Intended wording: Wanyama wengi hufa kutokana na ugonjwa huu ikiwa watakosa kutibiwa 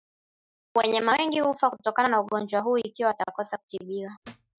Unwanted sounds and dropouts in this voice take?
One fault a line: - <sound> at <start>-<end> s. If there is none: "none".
- thud at 4.2-4.5 s